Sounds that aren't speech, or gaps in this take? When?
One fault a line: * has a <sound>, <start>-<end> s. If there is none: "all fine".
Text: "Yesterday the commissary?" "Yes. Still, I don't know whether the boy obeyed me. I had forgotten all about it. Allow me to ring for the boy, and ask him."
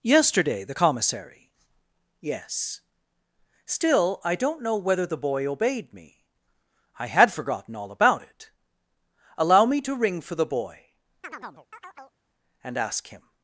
* has a chirp, 11.2-12.2 s